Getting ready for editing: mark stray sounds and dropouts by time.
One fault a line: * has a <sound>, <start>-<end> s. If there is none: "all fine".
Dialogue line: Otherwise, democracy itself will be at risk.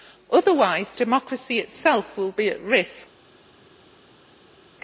all fine